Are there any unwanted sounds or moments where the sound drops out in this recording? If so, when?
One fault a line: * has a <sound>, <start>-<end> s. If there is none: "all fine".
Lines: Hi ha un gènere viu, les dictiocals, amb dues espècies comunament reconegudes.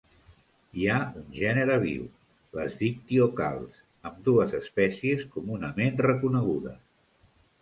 all fine